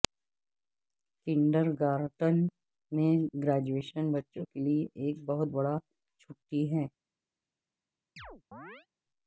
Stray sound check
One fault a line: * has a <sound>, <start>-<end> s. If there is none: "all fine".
* has a chirp, 8.2-8.9 s